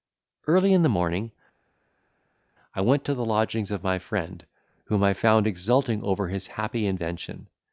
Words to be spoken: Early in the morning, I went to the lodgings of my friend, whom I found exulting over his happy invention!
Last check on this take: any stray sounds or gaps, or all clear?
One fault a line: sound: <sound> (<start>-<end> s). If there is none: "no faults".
no faults